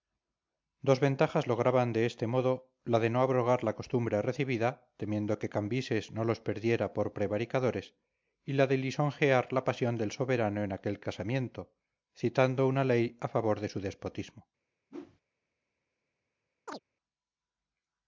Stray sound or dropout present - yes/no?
yes